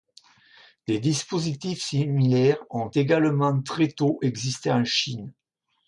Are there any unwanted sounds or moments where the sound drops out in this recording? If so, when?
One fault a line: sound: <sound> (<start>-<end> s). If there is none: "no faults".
no faults